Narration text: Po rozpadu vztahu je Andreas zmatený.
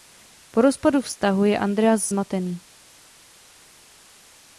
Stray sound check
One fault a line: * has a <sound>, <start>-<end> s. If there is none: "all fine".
all fine